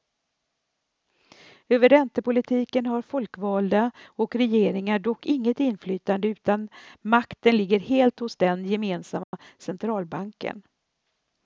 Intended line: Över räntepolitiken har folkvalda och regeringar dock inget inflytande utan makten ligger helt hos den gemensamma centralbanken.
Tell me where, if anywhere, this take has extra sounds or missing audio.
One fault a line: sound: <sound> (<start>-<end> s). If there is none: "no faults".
sound: dropout (9.2-9.3 s)